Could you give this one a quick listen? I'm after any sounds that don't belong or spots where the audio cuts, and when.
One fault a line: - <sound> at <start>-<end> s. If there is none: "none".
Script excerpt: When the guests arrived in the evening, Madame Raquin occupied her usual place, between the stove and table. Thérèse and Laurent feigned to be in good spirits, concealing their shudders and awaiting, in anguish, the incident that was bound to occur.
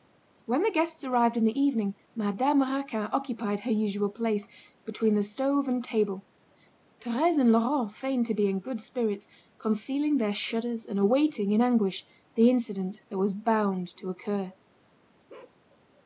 - bark at 15.3-15.6 s